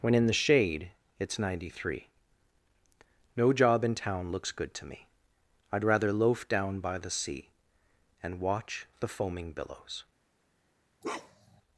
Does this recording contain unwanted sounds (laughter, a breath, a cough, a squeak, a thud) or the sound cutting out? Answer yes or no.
yes